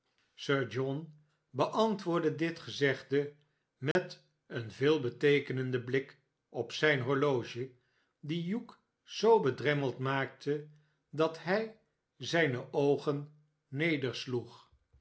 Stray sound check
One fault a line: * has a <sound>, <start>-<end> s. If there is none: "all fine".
* has a dropout, 3.9-4.0 s